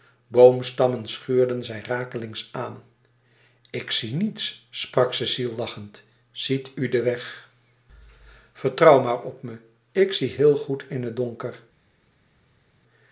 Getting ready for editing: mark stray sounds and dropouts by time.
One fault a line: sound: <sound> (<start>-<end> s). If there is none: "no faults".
no faults